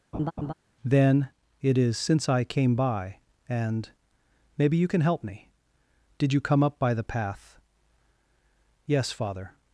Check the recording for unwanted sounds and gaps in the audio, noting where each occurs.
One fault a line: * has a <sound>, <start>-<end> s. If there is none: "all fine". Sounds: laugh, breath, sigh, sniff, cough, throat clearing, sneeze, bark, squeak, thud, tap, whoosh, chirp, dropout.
* has a laugh, 0.1-0.5 s